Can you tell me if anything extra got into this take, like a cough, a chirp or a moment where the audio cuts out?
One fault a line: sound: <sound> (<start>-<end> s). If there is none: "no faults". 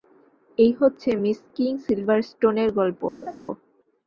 sound: laugh (3.2-3.4 s)